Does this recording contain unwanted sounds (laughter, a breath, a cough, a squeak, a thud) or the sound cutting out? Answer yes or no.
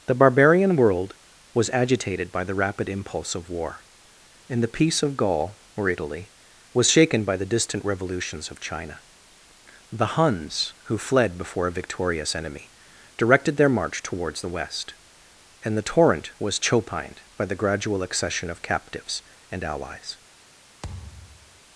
yes